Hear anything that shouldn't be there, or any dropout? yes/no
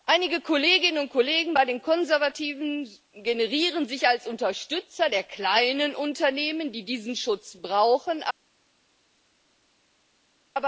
no